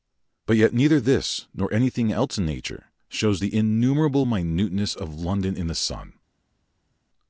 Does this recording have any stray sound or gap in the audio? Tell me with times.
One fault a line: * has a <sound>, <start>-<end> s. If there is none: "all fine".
all fine